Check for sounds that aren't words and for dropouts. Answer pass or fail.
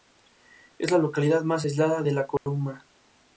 fail